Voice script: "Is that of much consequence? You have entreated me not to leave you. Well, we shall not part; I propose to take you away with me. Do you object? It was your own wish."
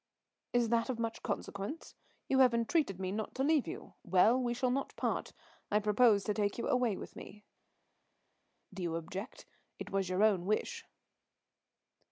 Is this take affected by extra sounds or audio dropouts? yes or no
no